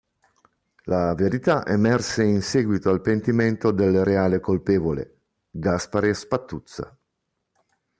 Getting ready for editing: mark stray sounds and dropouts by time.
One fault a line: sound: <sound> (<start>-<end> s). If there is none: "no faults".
no faults